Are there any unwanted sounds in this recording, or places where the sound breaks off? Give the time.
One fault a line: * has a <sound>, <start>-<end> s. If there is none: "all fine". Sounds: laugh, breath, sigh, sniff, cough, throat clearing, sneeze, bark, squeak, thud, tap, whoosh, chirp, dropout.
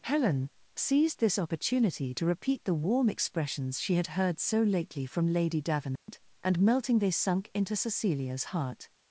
* has a dropout, 6.0-6.1 s